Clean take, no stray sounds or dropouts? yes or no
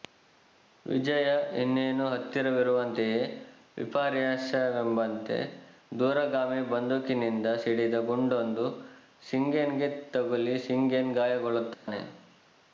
no